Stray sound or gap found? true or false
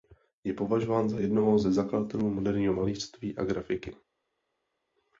false